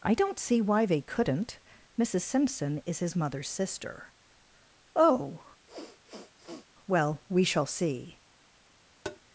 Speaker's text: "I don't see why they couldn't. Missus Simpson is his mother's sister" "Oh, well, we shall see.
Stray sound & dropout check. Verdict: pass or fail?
fail